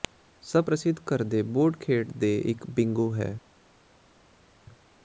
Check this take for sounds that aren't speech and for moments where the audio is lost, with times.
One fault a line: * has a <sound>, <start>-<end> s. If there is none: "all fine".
all fine